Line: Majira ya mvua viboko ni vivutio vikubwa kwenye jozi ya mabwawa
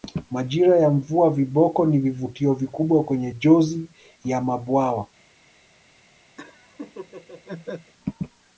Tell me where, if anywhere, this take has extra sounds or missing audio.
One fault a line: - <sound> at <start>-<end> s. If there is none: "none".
- laugh at 6.4-7.9 s